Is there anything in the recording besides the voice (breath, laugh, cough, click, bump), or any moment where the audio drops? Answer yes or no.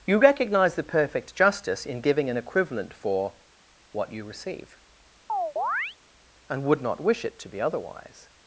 yes